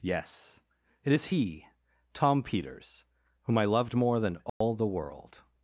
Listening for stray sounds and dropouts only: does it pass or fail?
fail